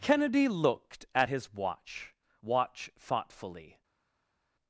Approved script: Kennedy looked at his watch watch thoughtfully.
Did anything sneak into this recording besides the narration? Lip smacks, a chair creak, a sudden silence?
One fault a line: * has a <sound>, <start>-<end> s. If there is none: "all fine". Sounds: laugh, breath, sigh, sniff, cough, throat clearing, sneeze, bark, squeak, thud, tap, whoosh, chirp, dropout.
all fine